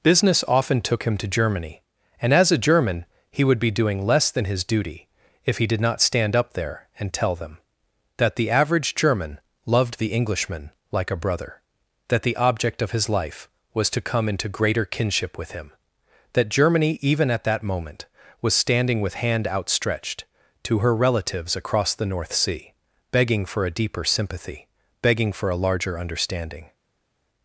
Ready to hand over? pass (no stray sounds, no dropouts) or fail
pass